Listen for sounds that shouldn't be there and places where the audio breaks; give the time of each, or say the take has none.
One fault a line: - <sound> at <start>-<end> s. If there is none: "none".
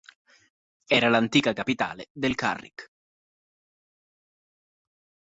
none